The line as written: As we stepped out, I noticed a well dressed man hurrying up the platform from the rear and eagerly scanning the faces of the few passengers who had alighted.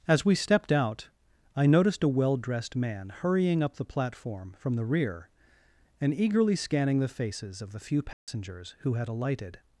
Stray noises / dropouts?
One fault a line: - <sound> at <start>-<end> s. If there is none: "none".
- dropout at 8.1-8.3 s